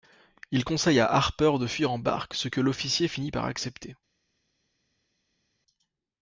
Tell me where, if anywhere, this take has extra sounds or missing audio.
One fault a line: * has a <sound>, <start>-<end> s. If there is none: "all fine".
all fine